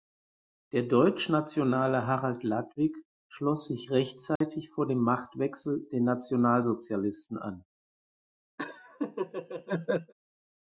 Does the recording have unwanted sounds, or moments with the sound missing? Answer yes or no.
yes